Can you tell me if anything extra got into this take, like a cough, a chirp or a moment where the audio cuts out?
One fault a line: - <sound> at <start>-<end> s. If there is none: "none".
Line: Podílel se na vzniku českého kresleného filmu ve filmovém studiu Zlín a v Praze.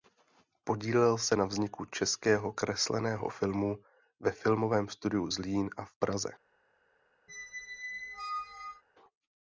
- squeak at 7.3-8.8 s